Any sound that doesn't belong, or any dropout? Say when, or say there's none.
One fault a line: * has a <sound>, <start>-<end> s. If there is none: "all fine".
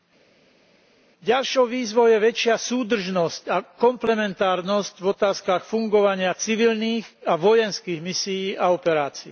all fine